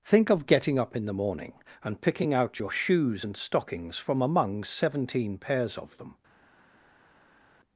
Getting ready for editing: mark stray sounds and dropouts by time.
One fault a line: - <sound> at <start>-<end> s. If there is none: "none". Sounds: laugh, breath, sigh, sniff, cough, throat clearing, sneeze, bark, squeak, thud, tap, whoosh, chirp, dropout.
none